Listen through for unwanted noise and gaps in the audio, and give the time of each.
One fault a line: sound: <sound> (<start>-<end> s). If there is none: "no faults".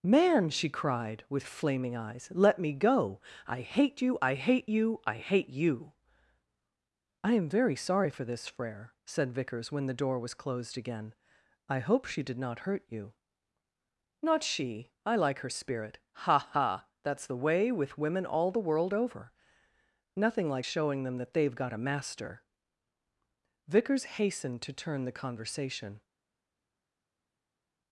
no faults